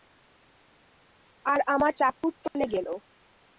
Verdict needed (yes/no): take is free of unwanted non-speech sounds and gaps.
no